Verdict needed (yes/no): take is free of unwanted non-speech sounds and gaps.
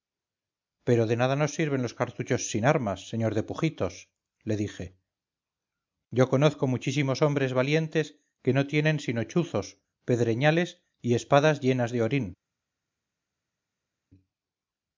yes